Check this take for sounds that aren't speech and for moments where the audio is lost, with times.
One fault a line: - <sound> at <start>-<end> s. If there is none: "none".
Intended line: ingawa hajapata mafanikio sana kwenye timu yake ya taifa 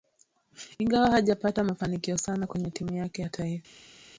none